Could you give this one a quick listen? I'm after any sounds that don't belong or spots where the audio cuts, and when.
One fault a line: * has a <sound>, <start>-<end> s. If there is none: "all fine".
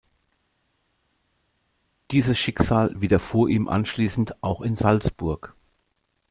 all fine